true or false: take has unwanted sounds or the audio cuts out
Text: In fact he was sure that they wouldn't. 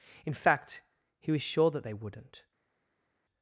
false